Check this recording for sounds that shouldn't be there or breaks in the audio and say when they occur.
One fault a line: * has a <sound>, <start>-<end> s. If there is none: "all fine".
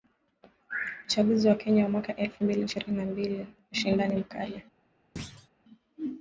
* has a thud, 5.2-5.5 s